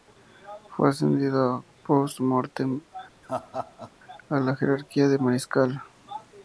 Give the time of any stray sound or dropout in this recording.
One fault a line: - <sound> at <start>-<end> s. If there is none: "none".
- laugh at 3.2-3.9 s